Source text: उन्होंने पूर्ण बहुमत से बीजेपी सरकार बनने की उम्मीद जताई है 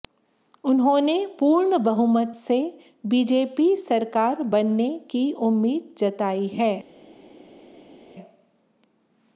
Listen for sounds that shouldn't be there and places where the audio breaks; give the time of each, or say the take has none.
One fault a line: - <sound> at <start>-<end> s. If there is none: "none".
none